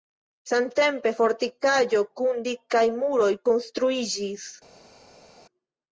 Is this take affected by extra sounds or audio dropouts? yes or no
no